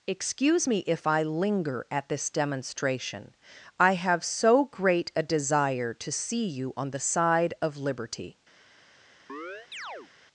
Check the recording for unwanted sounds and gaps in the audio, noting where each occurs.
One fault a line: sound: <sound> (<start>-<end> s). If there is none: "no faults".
sound: chirp (9.3-10.1 s)